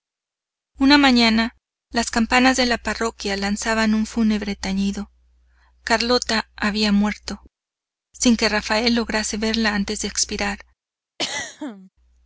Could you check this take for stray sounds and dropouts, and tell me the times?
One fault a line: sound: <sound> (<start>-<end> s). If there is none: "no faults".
sound: throat clearing (11.2-11.9 s)